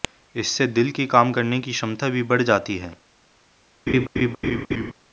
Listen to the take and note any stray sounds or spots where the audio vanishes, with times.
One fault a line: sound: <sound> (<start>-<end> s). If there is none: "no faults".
sound: laugh (3.9-4.9 s)